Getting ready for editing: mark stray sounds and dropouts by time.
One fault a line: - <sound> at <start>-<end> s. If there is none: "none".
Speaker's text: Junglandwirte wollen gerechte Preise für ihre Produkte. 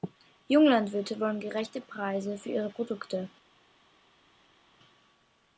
none